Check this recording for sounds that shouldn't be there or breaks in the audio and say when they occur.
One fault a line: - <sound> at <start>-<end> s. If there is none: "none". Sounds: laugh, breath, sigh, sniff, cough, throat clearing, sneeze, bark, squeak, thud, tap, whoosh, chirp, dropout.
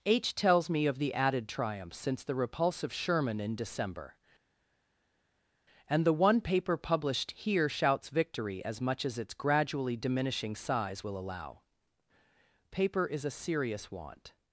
none